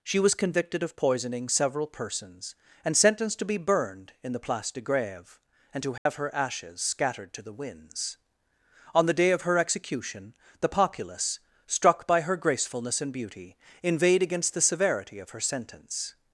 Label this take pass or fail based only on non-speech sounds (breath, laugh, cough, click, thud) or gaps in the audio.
fail